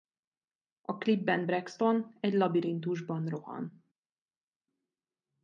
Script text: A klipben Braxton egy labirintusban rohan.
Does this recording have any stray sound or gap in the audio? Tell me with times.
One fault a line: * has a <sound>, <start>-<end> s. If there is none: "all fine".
all fine